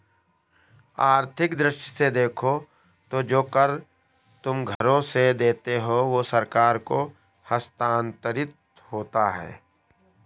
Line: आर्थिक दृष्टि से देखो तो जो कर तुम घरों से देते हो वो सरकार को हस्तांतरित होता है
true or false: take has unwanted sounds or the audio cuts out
true